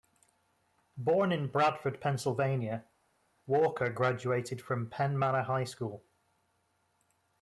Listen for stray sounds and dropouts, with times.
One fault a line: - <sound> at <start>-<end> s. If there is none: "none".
none